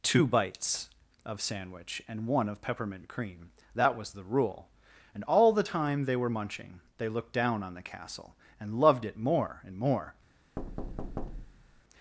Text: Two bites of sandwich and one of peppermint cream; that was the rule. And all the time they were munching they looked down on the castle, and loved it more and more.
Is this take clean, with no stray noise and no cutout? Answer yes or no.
no